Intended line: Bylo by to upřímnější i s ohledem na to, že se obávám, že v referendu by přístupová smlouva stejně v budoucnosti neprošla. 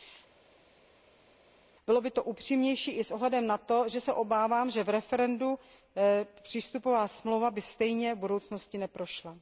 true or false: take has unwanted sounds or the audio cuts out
false